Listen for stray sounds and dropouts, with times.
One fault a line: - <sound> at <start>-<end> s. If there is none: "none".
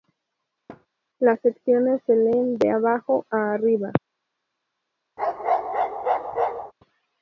- thud at 0.7-0.9 s
- bark at 5.2-6.7 s